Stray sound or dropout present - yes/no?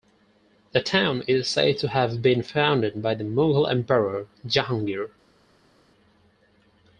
no